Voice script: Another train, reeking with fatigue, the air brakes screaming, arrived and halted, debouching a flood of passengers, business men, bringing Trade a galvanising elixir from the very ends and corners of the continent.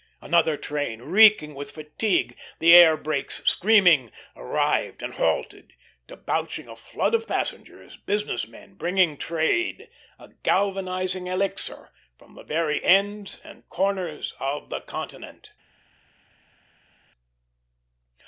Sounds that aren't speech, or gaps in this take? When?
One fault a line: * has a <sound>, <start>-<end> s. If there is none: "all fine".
all fine